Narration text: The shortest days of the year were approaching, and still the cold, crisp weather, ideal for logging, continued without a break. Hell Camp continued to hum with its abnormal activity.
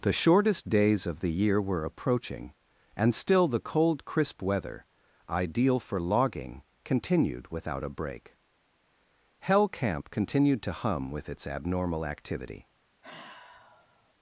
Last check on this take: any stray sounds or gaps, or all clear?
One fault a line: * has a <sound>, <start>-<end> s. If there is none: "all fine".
* has a sigh, 13.0-14.1 s